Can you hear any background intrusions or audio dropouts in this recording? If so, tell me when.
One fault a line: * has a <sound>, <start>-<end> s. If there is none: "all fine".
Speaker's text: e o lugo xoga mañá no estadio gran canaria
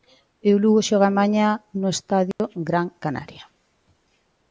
* has a dropout, 2.3-2.4 s